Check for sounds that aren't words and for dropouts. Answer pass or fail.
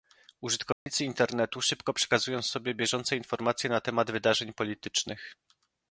fail